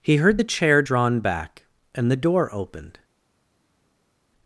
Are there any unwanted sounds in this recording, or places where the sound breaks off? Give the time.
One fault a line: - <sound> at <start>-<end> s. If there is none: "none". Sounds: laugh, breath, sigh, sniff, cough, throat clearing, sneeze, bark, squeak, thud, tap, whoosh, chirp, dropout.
none